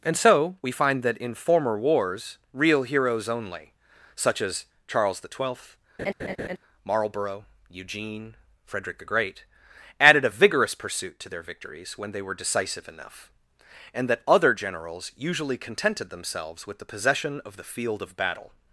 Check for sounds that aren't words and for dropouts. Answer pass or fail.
fail